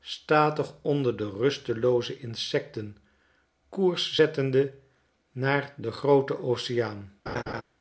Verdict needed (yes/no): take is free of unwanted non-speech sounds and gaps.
no